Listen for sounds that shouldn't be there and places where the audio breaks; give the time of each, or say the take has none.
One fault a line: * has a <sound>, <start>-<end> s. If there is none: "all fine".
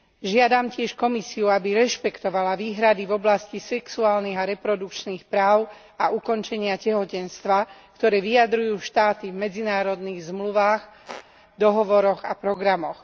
* has a squeak, 11.0-11.3 s